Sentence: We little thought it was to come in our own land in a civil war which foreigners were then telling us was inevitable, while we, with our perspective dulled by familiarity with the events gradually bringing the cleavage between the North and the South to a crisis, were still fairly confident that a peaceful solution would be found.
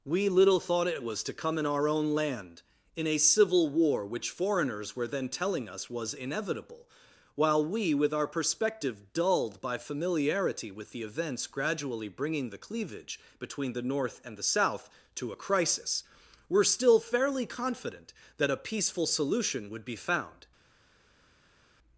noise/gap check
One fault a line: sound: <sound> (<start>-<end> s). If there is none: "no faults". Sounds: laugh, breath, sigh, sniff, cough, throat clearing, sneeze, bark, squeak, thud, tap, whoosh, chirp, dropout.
no faults